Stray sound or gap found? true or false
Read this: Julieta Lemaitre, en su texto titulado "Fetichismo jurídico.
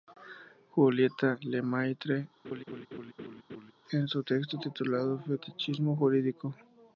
true